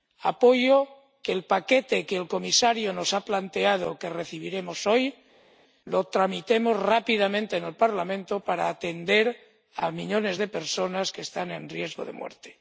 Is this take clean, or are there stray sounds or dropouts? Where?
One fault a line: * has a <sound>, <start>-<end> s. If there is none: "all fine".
all fine